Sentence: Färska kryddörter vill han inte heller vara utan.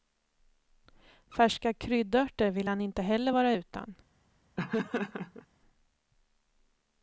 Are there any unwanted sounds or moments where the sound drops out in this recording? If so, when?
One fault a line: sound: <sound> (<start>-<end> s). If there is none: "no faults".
sound: laugh (4.6-5.5 s)